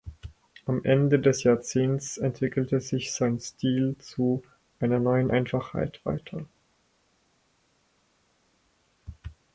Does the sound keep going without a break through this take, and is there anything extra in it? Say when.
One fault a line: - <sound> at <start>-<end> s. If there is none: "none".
none